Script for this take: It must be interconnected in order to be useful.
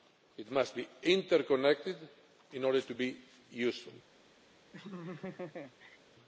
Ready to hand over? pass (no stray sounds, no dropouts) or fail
fail